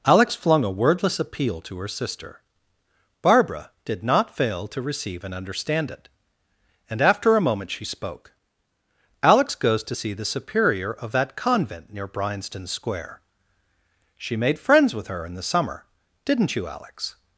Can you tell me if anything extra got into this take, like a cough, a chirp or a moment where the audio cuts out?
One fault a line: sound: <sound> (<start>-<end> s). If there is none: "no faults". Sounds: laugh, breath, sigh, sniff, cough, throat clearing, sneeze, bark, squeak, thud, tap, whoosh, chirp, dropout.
no faults